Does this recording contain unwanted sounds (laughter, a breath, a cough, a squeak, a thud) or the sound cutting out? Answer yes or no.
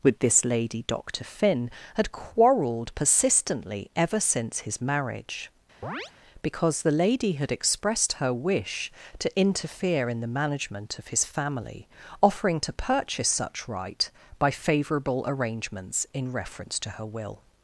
yes